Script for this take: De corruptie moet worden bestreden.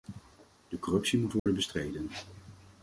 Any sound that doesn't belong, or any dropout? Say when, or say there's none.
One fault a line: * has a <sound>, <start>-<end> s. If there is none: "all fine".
* has a dropout, 1.4-1.5 s